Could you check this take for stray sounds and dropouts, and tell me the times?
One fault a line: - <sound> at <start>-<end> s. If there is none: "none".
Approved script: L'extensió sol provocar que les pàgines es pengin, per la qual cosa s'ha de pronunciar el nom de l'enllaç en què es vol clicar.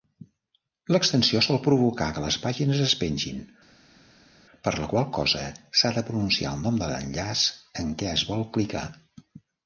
none